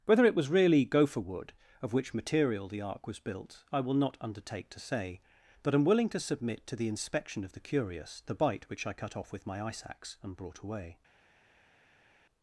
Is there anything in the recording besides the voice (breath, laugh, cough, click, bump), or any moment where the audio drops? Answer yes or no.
no